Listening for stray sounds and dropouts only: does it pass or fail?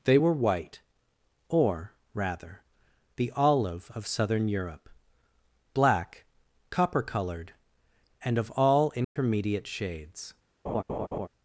fail